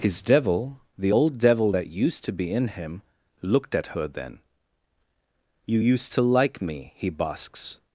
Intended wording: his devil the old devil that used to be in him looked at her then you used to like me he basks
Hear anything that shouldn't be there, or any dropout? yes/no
no